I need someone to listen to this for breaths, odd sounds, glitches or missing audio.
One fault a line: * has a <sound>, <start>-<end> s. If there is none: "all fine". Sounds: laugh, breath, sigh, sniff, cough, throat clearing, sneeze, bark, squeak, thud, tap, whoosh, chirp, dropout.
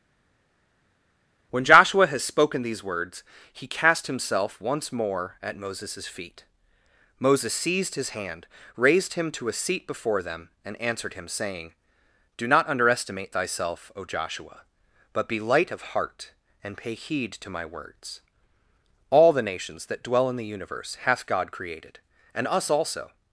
all fine